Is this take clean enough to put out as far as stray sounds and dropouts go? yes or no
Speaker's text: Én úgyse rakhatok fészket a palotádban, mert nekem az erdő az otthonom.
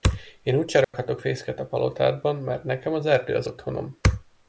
no